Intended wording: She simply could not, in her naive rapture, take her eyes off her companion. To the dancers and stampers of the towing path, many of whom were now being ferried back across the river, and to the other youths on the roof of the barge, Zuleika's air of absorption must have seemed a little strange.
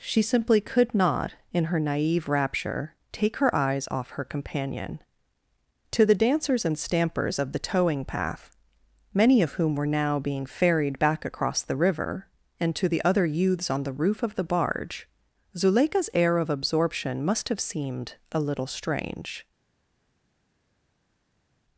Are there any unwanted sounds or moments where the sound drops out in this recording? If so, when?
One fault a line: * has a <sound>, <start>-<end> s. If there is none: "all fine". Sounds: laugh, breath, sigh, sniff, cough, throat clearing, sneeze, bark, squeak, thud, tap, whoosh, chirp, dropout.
all fine